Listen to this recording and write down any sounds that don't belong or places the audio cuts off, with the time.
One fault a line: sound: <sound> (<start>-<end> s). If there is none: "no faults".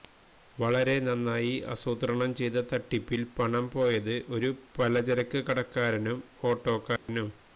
sound: dropout (7.0-7.1 s)